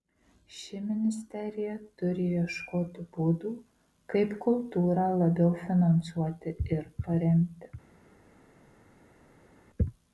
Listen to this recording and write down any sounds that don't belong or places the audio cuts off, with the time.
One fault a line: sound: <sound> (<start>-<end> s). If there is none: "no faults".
no faults